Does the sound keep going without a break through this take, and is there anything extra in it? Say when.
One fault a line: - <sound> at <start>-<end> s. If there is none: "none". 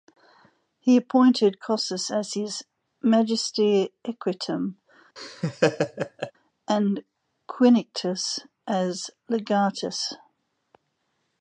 - laugh at 5.2-6.3 s